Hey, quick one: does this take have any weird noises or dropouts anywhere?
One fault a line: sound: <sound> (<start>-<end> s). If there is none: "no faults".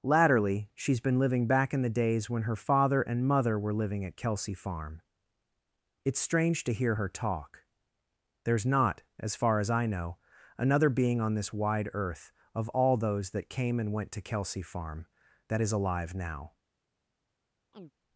sound: chirp (17.7-17.9 s)